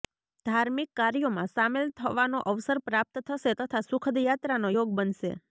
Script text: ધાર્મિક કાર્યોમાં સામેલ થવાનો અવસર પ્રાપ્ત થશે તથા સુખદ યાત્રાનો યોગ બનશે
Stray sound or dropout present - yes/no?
no